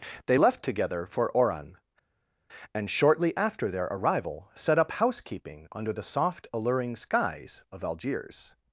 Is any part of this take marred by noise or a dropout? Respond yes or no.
no